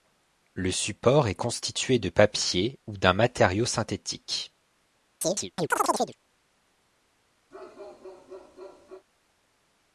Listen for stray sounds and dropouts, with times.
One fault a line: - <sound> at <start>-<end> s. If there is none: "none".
- chirp at 5.2-6.2 s
- bark at 7.5-9.1 s